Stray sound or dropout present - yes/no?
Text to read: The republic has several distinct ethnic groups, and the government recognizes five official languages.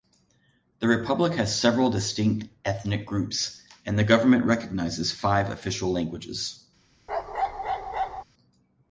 yes